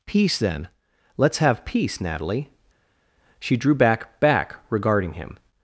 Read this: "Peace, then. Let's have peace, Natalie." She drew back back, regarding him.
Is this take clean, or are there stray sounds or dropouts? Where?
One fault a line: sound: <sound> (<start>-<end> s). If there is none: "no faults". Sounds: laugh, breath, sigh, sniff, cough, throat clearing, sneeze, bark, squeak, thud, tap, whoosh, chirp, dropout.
no faults